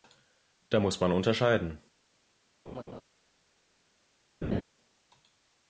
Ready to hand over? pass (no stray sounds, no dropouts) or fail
fail